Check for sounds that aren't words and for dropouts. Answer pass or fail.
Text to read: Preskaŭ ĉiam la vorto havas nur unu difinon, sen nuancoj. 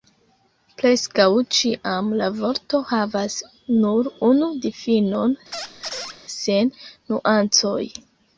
fail